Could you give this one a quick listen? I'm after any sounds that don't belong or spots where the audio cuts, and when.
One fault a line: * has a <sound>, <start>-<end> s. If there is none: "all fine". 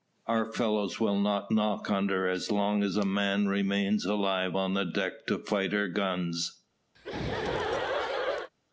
* has a laugh, 6.9-8.5 s